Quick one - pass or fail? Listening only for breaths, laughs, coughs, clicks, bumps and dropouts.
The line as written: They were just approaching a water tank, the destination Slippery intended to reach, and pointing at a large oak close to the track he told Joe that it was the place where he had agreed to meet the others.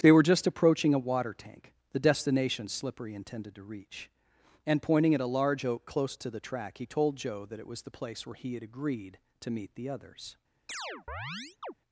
fail